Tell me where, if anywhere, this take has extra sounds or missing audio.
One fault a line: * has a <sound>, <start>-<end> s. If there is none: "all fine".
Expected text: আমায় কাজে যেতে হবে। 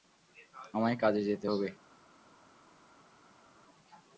all fine